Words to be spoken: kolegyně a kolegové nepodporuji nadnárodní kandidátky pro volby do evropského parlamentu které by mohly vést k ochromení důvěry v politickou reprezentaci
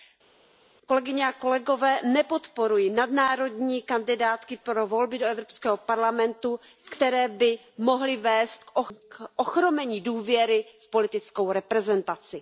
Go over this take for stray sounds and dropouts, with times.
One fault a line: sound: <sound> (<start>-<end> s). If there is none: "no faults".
no faults